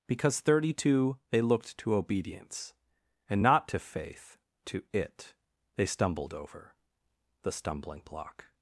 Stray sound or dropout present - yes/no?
no